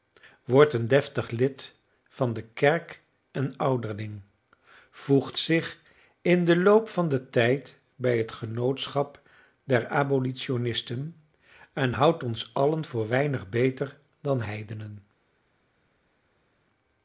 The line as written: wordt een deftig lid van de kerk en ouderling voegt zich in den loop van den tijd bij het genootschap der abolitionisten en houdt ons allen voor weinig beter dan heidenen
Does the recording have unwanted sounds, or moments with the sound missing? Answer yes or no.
no